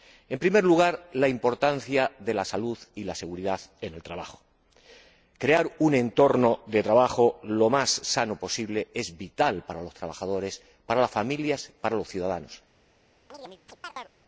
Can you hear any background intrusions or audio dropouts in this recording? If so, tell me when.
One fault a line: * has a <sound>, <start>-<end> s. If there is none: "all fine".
* has a chirp, 13.3-14.1 s